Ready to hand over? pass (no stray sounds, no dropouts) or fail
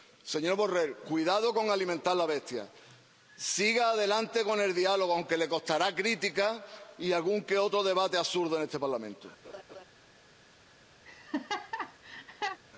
fail